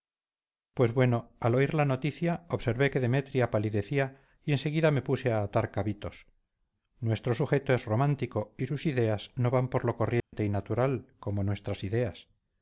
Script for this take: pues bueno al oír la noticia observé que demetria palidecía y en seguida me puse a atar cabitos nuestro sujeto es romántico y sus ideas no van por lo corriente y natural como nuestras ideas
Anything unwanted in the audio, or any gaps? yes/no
yes